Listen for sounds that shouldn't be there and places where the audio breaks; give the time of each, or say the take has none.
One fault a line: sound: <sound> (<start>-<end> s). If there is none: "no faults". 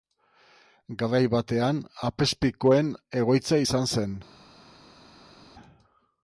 no faults